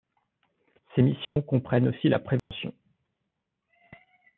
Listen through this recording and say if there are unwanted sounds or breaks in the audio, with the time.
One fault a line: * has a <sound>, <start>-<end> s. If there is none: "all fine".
* has a dropout, 1.2-1.4 s
* has a dropout, 2.4-2.5 s